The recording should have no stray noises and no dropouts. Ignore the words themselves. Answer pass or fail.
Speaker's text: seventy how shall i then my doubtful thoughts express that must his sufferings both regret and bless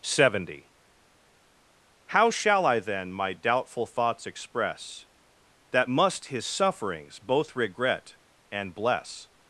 pass